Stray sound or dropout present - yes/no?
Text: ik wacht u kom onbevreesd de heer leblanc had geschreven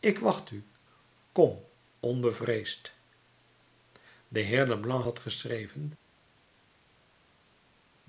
no